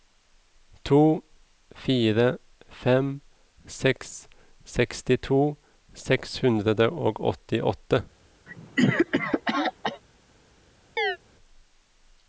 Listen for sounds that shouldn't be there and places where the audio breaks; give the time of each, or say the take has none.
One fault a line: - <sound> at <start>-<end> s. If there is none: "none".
- cough at 8.5-10.0 s
- chirp at 11.0-11.2 s